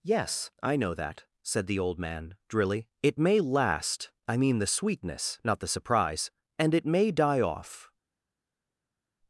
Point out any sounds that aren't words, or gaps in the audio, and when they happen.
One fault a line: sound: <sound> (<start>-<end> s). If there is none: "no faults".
no faults